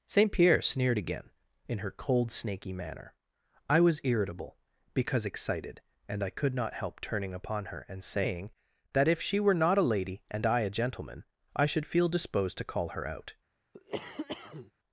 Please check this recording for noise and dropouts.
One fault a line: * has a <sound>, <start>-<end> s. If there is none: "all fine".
* has a cough, 13.7-14.7 s